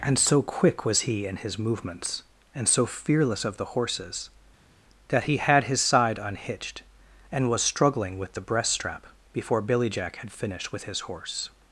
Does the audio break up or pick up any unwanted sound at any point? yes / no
no